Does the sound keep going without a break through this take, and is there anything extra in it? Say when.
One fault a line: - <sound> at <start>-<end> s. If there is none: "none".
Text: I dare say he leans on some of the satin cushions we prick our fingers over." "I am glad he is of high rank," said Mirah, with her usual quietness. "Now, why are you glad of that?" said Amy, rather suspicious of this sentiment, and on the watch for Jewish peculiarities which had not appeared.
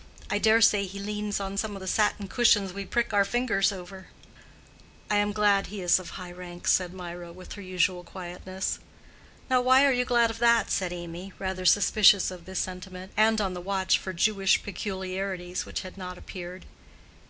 none